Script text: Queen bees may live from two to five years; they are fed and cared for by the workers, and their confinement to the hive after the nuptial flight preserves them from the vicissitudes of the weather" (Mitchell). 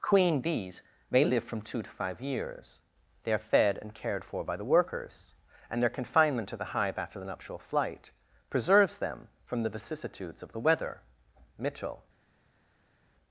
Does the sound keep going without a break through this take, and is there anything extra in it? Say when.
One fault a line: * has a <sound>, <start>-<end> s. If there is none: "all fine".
all fine